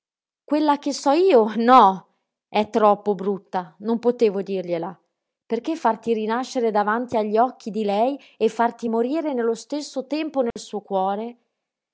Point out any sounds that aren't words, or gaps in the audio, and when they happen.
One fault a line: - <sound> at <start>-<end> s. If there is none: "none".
- dropout at 10.5-10.6 s